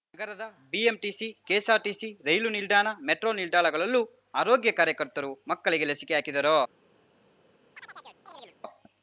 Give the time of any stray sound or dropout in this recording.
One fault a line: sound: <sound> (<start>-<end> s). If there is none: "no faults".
sound: chirp (7.7-8.6 s)